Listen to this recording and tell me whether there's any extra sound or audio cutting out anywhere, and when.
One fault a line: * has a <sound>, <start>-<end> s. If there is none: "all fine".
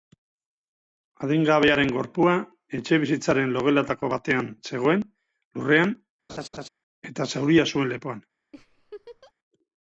* has a laugh, 6.3-6.7 s
* has a laugh, 8.5-9.3 s